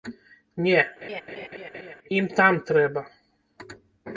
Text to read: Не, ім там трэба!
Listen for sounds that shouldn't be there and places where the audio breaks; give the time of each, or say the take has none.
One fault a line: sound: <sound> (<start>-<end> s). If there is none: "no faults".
sound: laugh (1.0-2.0 s)